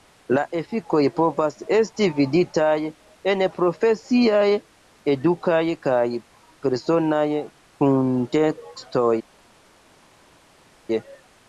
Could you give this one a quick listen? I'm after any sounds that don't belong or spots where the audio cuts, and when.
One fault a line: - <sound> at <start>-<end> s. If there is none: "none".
none